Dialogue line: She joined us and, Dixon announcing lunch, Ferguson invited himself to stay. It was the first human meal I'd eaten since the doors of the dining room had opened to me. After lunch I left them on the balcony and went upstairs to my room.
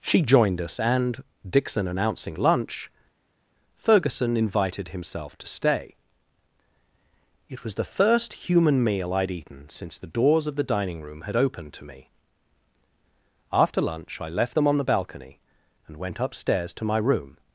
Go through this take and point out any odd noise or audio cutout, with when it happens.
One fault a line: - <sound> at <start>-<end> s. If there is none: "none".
none